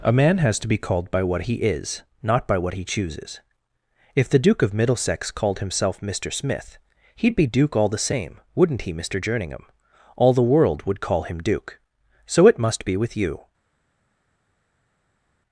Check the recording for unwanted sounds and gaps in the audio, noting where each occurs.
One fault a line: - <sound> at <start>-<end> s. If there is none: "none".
none